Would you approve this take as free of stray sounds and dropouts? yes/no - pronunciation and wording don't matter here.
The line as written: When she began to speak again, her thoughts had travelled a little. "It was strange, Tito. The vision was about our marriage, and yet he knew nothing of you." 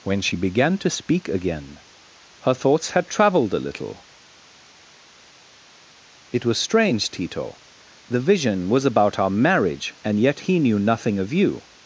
yes